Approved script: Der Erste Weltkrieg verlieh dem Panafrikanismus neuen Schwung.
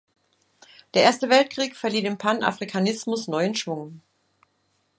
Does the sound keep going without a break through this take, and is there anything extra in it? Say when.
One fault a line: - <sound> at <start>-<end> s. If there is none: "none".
none